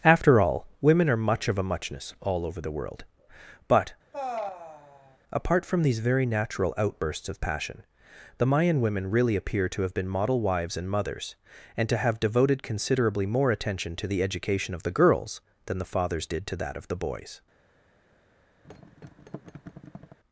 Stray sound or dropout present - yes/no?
yes